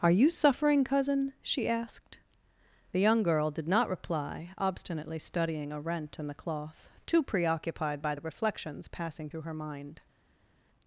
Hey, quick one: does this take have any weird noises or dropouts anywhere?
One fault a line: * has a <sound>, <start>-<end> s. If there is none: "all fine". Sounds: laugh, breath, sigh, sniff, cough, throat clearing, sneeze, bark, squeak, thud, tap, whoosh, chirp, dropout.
all fine